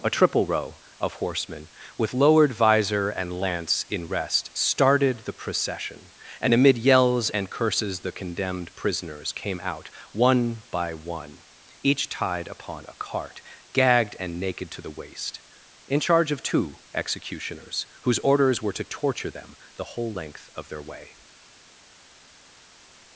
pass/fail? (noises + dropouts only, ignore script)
pass